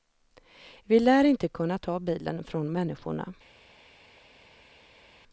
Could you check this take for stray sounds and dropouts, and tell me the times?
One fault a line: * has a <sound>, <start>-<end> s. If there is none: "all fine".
all fine